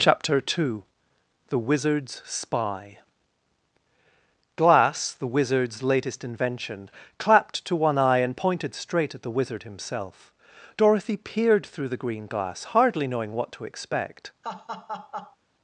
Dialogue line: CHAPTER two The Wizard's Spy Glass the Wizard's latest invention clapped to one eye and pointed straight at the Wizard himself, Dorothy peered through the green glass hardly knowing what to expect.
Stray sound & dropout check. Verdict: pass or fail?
fail